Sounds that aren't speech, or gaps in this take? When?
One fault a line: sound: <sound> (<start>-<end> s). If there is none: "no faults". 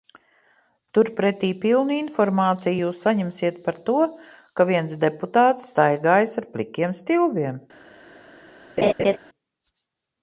sound: laugh (8.8-9.2 s)